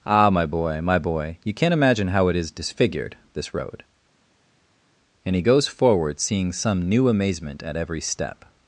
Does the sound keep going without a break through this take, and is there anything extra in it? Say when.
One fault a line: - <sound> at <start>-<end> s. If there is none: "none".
none